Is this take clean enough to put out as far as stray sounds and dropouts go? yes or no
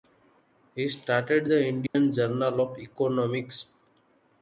no